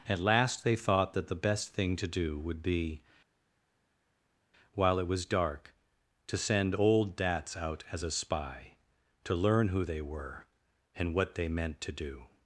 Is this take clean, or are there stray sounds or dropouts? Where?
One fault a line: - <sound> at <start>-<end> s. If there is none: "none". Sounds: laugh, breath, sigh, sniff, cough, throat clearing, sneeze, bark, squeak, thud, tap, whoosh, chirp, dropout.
none